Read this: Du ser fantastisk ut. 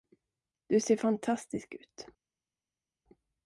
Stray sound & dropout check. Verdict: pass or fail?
pass